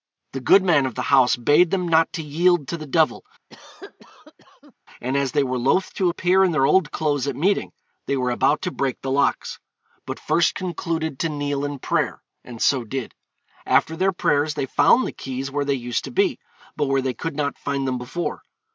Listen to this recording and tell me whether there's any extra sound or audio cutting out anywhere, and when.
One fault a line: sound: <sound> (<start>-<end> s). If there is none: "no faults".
sound: cough (3.5-4.7 s)